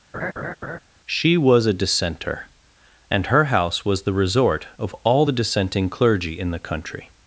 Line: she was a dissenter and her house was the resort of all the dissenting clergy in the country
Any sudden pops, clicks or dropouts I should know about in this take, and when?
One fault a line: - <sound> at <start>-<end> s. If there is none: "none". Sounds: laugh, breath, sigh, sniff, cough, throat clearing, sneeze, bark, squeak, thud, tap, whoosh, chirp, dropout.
- laugh at 0.1-0.8 s